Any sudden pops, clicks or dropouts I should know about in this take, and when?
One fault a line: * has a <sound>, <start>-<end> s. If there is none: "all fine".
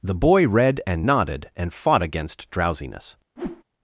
* has a whoosh, 3.4-3.6 s